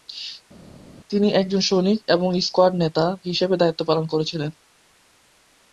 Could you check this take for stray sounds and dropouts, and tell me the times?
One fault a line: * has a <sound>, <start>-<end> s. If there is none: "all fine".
all fine